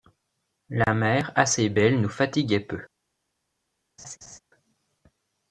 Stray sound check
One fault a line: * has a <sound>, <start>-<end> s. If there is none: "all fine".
* has a laugh, 4.0-4.4 s